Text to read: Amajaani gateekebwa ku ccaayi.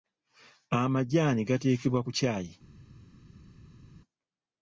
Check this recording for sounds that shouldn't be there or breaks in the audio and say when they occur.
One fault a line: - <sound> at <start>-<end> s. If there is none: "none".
none